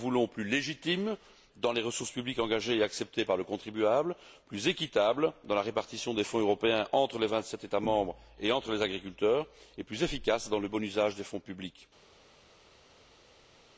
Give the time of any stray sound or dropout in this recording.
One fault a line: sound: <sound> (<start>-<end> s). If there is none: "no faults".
no faults